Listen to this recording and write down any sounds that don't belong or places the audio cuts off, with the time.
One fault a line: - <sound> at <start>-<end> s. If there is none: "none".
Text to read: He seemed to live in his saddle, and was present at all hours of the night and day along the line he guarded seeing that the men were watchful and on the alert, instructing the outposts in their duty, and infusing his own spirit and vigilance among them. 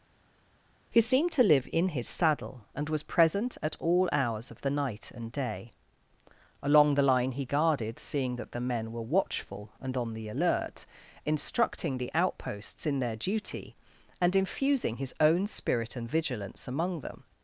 none